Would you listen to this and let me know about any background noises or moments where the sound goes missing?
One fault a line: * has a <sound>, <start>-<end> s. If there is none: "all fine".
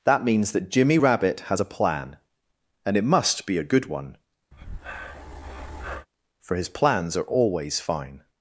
* has a breath, 4.5-6.1 s